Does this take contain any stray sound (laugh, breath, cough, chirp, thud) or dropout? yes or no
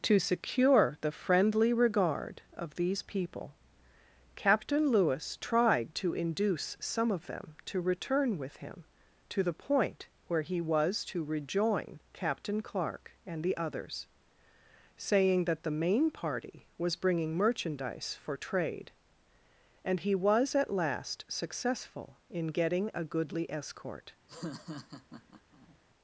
yes